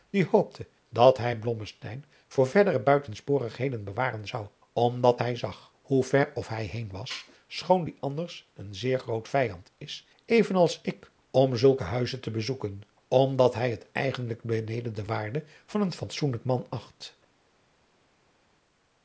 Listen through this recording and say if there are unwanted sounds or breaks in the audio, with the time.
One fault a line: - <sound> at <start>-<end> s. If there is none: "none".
none